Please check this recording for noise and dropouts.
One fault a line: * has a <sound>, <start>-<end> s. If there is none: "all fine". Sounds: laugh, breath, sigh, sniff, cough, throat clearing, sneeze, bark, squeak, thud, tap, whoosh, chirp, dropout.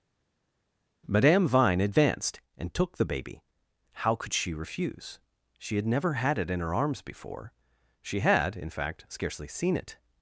all fine